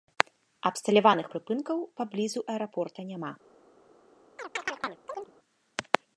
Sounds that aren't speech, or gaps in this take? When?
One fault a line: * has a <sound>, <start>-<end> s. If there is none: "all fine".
* has a chirp, 4.4-5.3 s